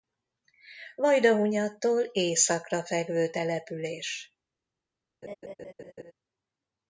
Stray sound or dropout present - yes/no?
yes